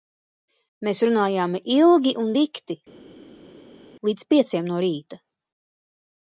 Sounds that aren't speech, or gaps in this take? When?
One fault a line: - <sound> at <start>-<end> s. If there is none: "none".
none